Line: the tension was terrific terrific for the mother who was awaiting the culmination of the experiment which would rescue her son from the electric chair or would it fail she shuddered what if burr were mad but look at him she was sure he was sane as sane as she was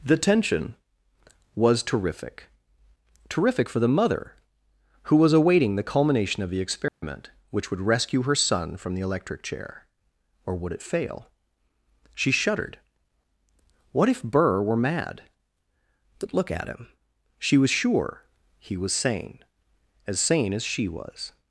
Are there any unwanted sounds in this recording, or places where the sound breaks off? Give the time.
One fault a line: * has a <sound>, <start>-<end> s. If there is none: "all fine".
* has a dropout, 6.9-7.0 s